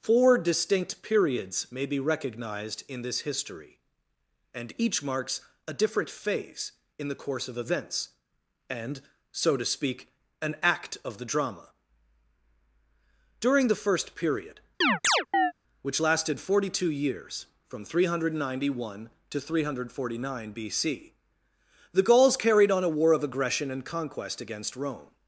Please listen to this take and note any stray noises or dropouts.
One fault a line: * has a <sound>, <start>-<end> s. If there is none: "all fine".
* has a chirp, 14.8-15.5 s